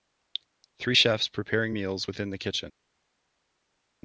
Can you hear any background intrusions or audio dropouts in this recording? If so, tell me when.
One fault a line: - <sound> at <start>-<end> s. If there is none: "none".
none